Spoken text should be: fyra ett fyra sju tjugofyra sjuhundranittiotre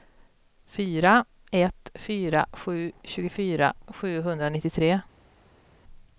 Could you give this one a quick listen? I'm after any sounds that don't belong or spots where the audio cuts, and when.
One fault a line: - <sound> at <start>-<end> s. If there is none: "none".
none